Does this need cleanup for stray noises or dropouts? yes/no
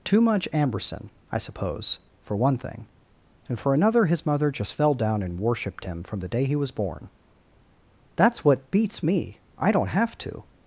no